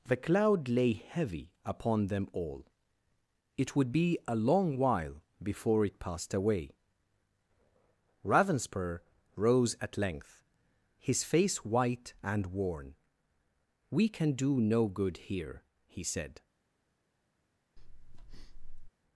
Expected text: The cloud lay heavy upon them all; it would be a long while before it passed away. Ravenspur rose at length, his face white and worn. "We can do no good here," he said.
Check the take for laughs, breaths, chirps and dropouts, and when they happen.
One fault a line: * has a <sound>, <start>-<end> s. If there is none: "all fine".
* has a breath, 17.8-18.9 s